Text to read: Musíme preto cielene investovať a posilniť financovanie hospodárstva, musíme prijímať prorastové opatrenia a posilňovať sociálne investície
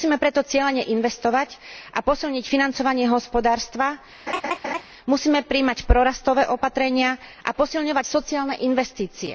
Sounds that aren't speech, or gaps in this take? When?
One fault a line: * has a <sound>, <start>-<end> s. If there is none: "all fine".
* has a laugh, 4.3-4.8 s